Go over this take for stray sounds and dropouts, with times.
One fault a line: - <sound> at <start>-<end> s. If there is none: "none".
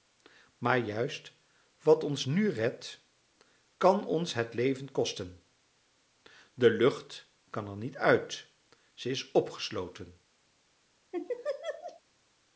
- laugh at 11.1-12.0 s